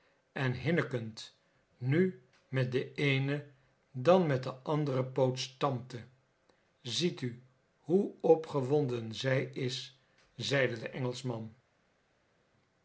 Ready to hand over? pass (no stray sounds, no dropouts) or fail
pass